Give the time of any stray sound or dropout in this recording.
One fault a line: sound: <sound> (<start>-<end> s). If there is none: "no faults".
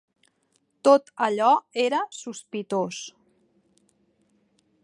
no faults